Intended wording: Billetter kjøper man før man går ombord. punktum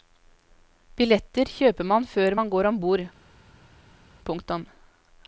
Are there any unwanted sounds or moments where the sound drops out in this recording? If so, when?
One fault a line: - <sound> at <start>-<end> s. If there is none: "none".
none